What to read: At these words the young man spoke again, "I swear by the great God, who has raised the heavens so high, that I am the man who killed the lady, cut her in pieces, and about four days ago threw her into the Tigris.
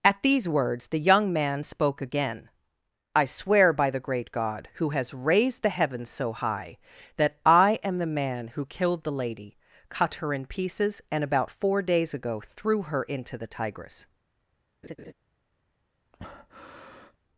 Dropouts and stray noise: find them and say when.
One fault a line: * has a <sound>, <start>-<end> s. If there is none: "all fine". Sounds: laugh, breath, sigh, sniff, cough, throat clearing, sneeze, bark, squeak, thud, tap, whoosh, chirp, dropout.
* has a laugh, 14.8-15.1 s
* has a breath, 16.1-17.2 s